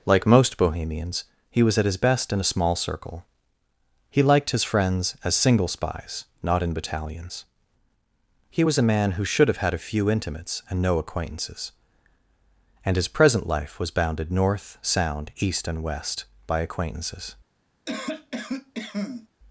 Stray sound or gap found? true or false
true